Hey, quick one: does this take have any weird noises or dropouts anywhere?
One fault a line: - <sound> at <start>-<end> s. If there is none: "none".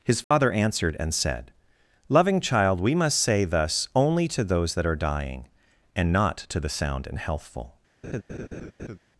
- dropout at 0.2-0.3 s
- laugh at 8.0-9.0 s